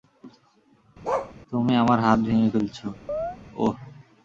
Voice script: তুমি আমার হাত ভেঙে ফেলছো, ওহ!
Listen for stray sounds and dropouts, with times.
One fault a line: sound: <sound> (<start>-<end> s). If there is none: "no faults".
sound: bark (1.0-1.3 s)
sound: chirp (3.1-3.4 s)